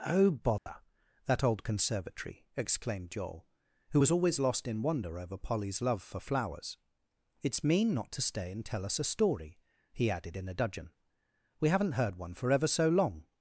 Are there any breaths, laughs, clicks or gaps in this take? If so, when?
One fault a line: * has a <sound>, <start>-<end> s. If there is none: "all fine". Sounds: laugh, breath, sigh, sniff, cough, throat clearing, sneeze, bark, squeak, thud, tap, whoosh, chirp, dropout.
* has a dropout, 0.6-0.7 s